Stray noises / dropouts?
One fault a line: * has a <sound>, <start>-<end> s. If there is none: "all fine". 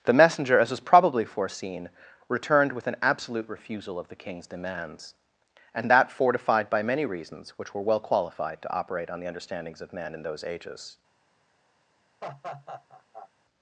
* has a laugh, 12.2-13.3 s